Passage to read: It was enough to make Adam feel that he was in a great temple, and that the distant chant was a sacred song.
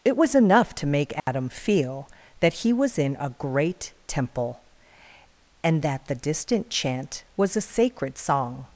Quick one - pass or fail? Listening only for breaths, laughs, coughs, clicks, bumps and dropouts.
fail